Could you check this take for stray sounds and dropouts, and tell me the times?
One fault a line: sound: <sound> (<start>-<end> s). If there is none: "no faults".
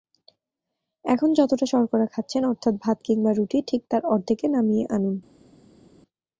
no faults